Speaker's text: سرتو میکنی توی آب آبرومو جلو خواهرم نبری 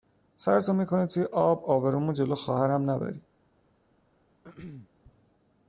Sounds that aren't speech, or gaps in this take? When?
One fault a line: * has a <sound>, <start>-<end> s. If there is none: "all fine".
* has a throat clearing, 4.4-4.9 s